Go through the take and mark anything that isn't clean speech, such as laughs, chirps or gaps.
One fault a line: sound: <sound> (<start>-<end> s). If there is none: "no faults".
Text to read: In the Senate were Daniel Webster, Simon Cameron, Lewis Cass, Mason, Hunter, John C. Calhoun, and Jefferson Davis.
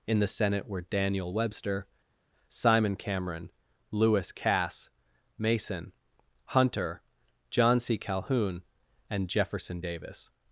no faults